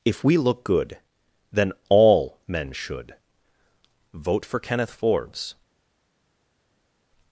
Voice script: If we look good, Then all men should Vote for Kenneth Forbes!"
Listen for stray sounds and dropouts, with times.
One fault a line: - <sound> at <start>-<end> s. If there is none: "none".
none